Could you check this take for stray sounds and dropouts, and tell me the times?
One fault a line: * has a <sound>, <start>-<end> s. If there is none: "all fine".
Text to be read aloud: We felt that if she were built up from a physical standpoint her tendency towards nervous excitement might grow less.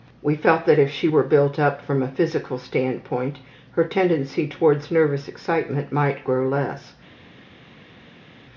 all fine